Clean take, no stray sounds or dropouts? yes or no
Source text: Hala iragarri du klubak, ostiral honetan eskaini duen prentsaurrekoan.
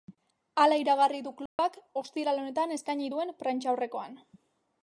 no